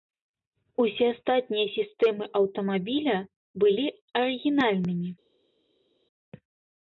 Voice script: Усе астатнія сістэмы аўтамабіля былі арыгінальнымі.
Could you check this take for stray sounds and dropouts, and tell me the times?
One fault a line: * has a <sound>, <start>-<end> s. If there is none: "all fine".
all fine